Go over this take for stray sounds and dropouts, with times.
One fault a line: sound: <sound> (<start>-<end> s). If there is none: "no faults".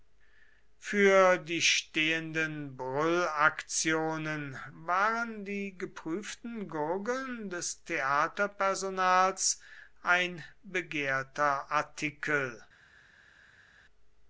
no faults